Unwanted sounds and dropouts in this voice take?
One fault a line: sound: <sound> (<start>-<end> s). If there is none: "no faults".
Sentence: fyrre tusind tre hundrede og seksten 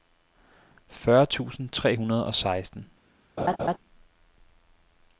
sound: laugh (3.4-3.8 s)